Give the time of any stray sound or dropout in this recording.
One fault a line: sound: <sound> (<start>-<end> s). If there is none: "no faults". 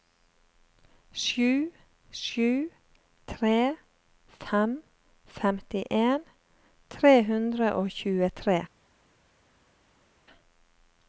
no faults